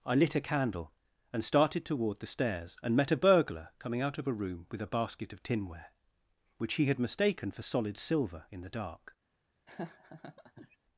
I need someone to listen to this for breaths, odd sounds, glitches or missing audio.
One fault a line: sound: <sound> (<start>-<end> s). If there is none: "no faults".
sound: laugh (9.7-10.8 s)